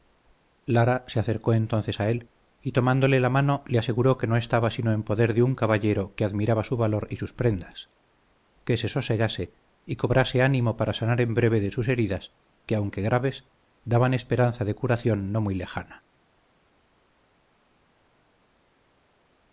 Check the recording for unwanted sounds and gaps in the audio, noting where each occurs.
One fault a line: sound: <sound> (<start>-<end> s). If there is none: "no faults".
no faults